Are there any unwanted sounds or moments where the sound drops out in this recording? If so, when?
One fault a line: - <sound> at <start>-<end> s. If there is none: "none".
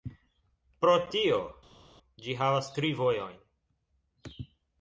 none